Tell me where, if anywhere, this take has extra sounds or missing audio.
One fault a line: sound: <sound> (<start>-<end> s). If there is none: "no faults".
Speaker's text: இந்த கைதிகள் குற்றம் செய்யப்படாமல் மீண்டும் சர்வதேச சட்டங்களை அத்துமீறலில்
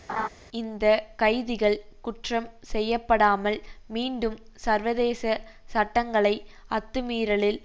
sound: laugh (0.1-0.3 s)